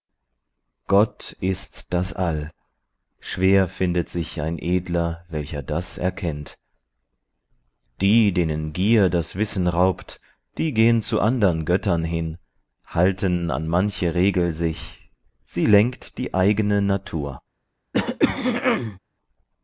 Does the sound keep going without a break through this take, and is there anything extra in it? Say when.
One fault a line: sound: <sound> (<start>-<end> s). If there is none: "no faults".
sound: throat clearing (17.9-19.0 s)